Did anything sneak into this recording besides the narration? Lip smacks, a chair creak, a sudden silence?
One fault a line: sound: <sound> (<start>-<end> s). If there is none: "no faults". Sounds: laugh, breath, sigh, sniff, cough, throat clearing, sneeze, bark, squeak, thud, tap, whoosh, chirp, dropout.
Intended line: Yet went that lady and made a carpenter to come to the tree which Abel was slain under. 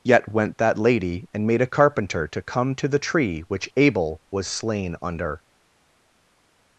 no faults